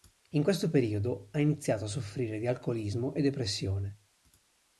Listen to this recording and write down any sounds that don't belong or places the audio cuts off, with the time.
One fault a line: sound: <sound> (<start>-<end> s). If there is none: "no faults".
no faults